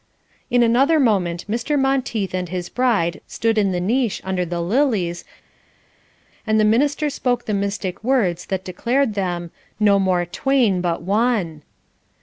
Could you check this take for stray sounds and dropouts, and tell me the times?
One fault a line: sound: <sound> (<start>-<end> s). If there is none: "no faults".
no faults